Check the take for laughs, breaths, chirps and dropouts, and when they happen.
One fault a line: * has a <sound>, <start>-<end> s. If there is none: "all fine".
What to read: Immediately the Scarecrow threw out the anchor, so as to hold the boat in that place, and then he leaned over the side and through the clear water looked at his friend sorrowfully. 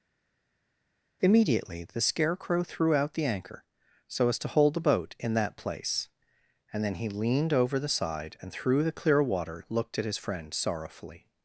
all fine